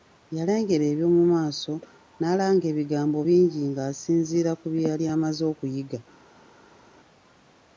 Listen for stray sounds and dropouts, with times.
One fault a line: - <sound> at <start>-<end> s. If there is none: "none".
none